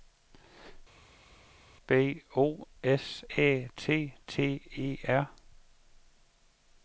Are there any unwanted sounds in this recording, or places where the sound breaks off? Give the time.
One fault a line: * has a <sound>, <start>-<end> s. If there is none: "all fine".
all fine